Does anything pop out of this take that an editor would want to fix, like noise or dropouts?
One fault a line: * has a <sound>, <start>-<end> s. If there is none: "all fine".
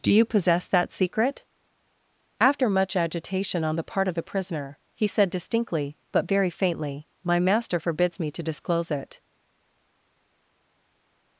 all fine